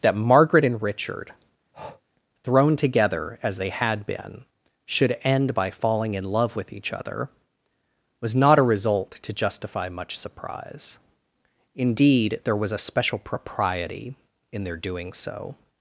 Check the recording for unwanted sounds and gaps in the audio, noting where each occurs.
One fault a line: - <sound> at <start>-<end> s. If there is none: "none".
- breath at 1.7-2.0 s